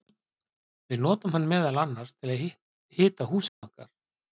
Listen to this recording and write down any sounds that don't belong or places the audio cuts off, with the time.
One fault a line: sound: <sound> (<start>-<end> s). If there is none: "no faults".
sound: dropout (3.5-3.6 s)